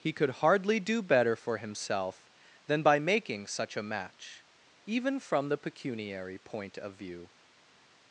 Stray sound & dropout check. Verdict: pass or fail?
pass